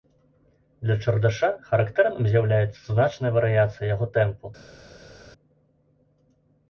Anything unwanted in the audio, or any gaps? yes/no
no